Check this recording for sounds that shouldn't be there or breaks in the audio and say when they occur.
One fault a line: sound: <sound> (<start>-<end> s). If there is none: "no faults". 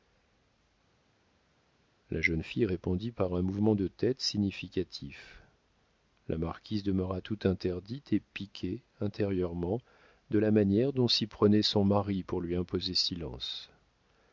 no faults